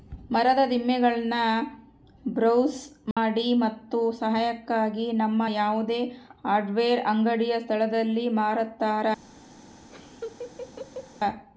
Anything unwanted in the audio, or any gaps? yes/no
yes